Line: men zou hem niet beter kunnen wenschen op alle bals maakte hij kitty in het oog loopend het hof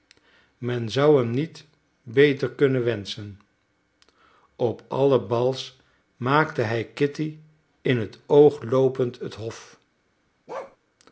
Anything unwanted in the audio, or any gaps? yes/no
yes